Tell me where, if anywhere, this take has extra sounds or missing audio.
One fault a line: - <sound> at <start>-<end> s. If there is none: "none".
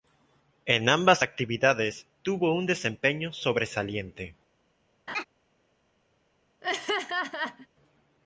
- laugh at 5.1-5.2 s
- laugh at 6.6-7.7 s